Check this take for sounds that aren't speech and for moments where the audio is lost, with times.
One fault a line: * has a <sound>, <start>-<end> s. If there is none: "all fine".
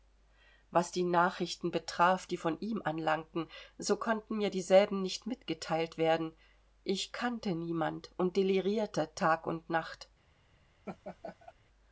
* has a laugh, 10.9-11.5 s